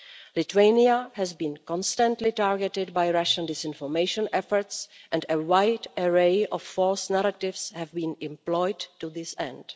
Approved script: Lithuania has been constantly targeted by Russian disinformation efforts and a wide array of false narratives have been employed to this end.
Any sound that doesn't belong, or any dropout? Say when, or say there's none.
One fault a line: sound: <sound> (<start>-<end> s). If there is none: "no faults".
no faults